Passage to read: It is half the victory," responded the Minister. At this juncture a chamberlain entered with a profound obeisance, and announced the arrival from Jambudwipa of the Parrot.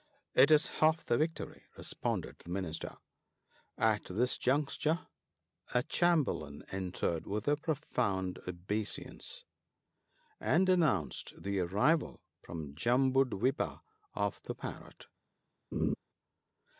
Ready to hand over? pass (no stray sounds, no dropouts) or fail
fail